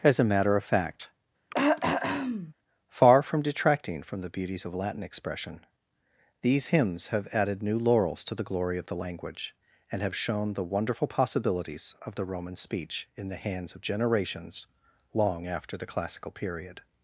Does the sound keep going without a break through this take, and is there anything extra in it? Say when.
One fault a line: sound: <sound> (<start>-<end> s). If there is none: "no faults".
sound: throat clearing (1.5-2.5 s)